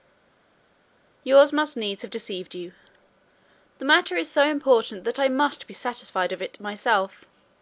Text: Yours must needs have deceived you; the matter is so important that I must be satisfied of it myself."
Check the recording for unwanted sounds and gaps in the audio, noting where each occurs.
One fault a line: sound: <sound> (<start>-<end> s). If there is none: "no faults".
no faults